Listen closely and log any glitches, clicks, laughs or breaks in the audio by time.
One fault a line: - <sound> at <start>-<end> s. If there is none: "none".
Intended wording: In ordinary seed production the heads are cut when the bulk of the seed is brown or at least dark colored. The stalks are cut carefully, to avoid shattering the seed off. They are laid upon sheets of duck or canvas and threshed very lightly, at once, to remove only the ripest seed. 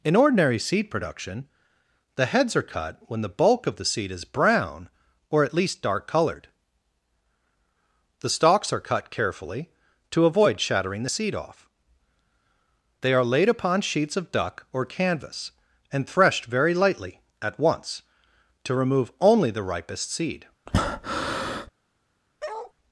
- breath at 20.7-21.7 s
- bark at 22.4-22.7 s